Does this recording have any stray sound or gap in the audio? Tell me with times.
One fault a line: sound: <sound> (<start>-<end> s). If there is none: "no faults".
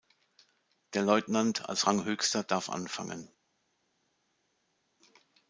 no faults